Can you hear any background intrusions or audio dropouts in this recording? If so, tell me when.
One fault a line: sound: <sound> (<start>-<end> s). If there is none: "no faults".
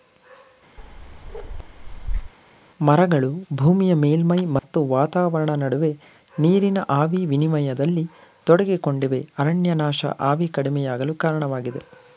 sound: bark (0.8-2.3 s)
sound: dropout (4.6-4.6 s)